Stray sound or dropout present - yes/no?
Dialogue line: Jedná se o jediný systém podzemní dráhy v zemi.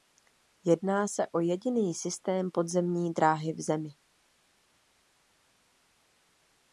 no